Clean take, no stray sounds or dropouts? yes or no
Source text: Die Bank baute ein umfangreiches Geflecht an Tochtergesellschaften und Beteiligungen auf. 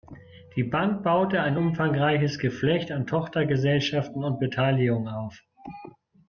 yes